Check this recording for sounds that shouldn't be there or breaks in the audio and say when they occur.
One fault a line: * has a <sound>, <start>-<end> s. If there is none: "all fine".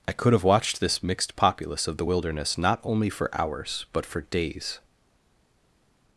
all fine